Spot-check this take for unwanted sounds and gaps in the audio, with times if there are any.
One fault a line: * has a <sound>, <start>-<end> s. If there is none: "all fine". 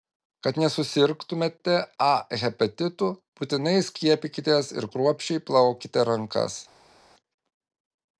all fine